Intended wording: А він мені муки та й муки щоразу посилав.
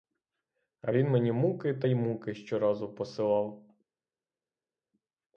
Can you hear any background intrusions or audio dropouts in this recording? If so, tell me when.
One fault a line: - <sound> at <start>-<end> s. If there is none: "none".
none